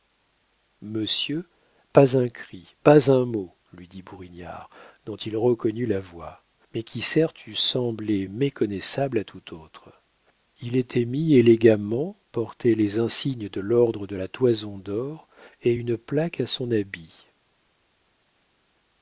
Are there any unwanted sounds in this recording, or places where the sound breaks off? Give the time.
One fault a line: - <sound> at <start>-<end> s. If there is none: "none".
none